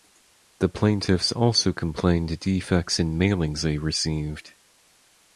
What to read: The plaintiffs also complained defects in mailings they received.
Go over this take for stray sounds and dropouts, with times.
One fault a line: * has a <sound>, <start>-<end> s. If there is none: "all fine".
all fine